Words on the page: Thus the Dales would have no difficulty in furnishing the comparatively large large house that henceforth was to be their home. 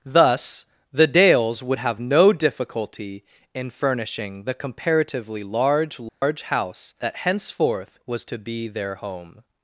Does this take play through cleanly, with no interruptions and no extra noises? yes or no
no